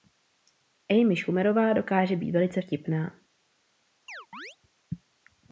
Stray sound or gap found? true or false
true